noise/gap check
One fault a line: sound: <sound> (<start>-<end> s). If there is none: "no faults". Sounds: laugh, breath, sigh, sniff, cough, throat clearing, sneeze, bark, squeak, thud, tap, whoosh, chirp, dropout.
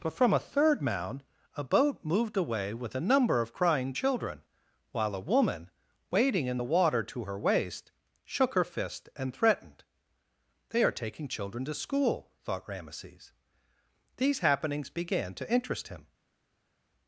no faults